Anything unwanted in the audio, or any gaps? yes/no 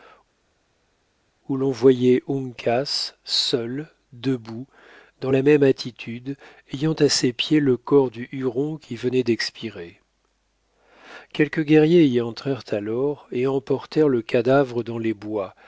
no